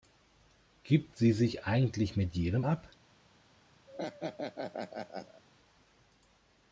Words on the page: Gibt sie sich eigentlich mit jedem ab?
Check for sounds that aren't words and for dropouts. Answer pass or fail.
fail